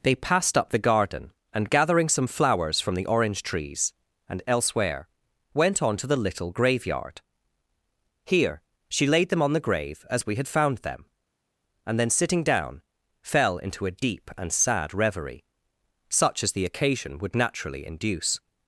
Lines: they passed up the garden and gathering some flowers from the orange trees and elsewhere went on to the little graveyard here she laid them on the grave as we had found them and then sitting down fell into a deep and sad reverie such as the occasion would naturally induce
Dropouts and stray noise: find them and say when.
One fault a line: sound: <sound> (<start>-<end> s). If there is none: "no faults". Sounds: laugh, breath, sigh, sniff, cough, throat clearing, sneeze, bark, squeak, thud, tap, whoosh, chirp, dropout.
no faults